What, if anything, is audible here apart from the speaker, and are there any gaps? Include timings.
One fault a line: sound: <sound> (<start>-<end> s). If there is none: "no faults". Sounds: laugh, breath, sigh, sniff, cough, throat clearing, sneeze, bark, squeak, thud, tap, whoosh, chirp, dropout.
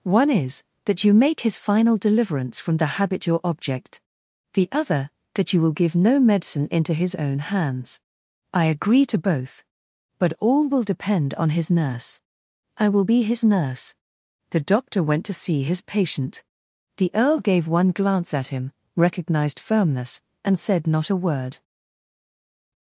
no faults